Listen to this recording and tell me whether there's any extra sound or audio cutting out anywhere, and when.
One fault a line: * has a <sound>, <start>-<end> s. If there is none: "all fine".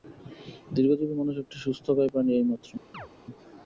* has a chirp, 2.9-3.1 s